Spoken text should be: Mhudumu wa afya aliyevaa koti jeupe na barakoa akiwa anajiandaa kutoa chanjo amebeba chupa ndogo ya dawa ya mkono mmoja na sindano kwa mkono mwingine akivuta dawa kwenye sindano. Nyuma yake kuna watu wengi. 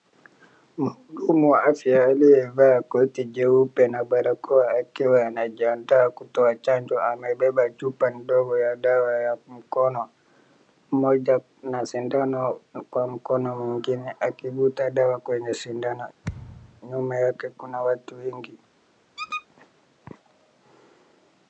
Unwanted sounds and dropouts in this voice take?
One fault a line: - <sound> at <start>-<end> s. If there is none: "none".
- thud at 16.2-16.8 s
- squeak at 19.2-19.5 s